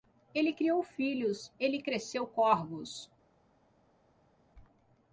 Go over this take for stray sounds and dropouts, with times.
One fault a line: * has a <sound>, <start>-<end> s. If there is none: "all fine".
all fine